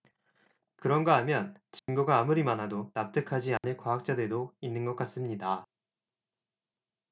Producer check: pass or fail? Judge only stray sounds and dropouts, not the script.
fail